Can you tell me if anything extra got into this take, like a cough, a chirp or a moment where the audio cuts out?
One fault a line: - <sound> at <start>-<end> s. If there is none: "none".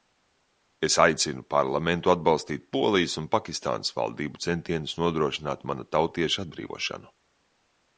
none